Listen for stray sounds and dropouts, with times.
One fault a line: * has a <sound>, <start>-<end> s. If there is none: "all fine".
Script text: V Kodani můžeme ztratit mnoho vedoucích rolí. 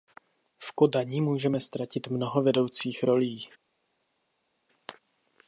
all fine